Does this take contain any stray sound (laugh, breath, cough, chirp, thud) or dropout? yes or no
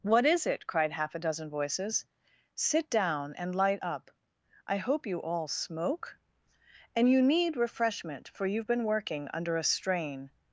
no